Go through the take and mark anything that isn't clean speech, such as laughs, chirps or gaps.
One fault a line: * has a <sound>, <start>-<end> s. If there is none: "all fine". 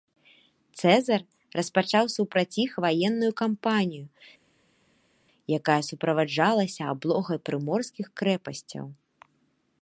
all fine